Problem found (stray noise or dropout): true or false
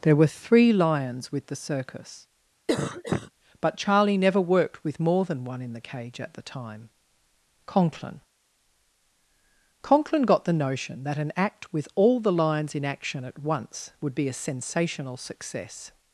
true